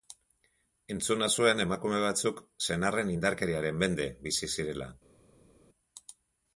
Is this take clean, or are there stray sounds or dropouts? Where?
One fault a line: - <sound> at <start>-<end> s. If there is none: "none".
none